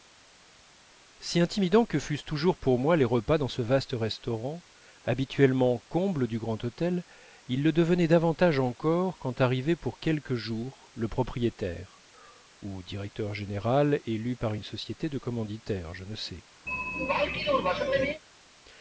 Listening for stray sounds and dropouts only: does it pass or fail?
fail